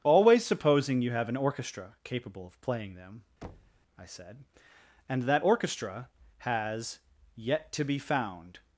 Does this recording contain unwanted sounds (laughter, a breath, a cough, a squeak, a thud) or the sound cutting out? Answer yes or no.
yes